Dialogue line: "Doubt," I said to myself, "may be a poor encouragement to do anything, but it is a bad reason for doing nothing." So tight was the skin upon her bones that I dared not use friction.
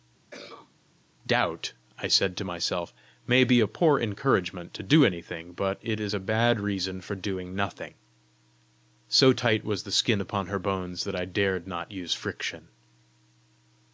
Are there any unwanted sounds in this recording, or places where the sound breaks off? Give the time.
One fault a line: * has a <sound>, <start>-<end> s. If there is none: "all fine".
* has a cough, 0.3-0.7 s